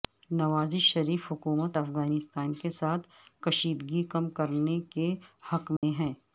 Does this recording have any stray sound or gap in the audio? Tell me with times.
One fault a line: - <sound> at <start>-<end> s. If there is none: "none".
- dropout at 5.8-5.8 s